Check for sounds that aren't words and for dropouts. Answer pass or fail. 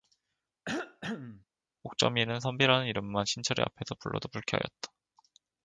fail